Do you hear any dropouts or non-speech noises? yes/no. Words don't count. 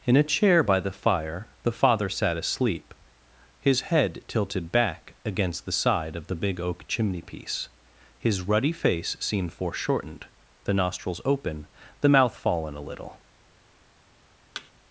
yes